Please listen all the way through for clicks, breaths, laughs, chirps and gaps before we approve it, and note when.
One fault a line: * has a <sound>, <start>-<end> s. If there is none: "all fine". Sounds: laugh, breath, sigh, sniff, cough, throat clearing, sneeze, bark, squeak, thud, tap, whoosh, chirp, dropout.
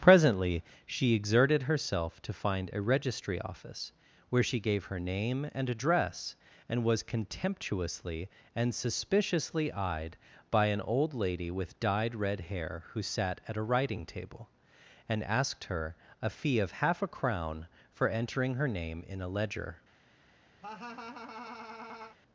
* has a laugh, 20.6-22.2 s